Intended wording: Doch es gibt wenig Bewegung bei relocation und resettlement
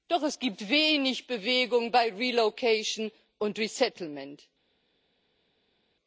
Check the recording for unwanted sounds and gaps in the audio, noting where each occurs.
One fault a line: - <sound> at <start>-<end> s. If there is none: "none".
none